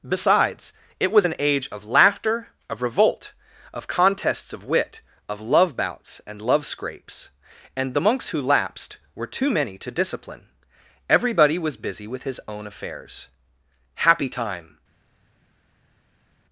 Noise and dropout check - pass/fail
pass